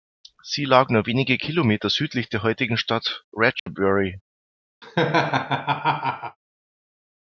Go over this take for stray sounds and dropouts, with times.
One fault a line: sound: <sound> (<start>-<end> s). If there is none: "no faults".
sound: dropout (3.6-3.7 s)
sound: laugh (4.8-6.4 s)